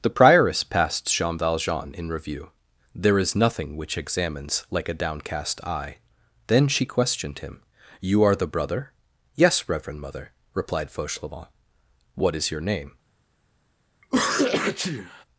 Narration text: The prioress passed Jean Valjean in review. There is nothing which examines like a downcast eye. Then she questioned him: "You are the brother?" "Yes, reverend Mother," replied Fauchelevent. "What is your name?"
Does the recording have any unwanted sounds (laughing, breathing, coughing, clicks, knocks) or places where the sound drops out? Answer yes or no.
yes